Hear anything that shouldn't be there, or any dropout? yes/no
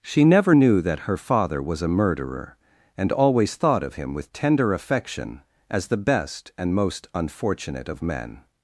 no